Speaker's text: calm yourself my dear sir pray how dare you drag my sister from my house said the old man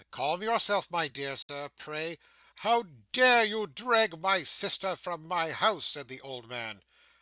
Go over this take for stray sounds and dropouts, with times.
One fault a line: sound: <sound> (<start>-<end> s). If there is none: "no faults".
sound: dropout (1.4-1.5 s)